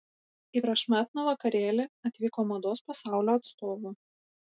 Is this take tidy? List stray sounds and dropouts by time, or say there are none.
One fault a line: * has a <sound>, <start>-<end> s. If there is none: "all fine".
all fine